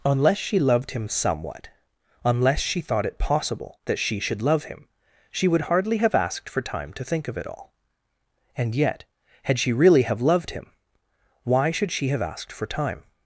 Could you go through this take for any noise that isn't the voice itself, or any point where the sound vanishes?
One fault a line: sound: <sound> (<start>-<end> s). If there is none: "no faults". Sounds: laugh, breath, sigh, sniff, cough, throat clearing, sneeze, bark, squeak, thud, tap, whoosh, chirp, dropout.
no faults